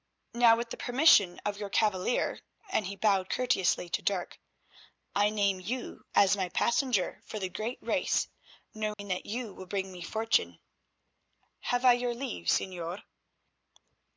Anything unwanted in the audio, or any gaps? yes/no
yes